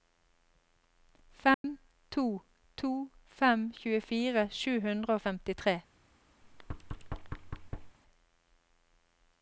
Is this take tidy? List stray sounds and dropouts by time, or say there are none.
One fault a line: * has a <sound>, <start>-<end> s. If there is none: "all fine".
* has a dropout, 1.5-1.6 s
* has a thud, 6.4-8.0 s